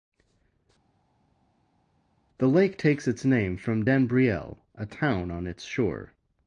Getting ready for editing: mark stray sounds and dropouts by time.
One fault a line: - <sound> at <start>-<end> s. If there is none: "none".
none